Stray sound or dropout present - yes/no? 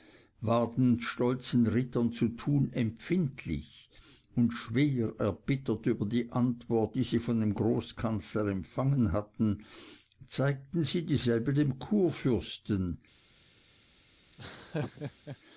yes